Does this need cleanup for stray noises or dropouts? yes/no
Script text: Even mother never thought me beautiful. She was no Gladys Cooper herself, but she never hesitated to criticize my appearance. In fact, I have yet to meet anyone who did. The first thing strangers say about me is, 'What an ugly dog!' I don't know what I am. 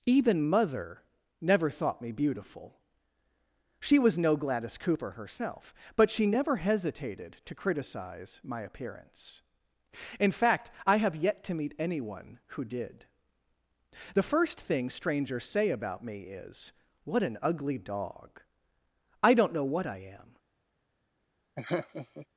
yes